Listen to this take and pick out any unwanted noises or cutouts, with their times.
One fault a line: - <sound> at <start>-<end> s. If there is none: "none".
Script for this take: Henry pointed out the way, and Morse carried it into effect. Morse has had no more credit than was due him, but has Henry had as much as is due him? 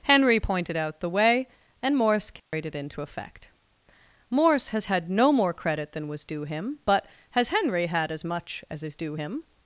- dropout at 2.4-2.5 s